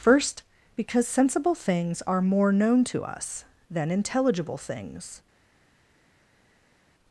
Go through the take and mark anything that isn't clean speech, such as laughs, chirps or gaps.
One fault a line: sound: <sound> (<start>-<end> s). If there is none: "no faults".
no faults